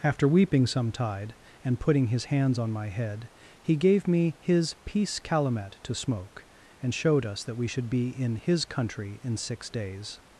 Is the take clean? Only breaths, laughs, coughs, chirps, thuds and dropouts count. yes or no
yes